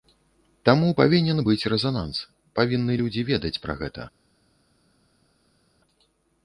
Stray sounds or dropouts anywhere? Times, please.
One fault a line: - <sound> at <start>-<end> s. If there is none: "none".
none